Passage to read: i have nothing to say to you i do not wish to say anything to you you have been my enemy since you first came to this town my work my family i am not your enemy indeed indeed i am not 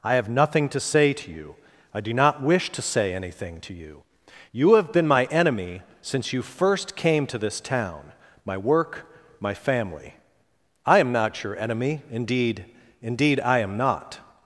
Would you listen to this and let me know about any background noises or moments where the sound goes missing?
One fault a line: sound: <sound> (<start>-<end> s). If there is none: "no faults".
no faults